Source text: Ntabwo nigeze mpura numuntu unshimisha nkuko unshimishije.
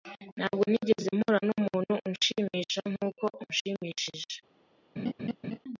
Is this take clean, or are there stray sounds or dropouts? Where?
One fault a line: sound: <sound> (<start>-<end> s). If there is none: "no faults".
sound: laugh (5.0-5.6 s)